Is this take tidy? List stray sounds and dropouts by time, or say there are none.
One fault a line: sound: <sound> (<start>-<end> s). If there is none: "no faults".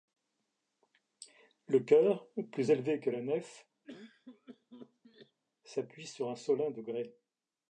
sound: cough (3.8-5.4 s)